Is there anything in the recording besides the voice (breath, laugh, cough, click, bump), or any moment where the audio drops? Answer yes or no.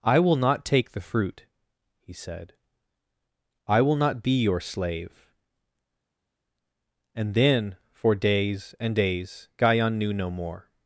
no